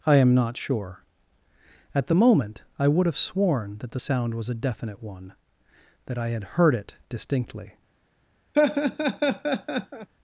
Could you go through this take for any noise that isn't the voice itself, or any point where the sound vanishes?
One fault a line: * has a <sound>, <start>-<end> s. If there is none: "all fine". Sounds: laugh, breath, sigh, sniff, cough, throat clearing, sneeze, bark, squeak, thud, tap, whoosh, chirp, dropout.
* has a laugh, 8.5-10.1 s